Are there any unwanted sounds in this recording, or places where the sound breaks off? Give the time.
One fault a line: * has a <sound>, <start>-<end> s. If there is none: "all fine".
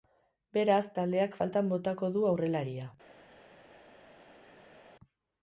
all fine